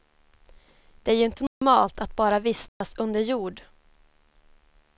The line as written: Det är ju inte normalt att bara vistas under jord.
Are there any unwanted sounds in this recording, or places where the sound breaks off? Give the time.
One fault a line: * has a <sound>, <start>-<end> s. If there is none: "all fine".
* has a dropout, 1.5-1.6 s
* has a dropout, 2.7-2.8 s